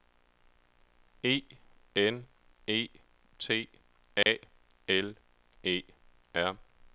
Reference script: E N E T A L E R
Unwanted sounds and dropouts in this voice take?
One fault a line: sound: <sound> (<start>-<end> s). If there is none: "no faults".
sound: dropout (4.2-4.3 s)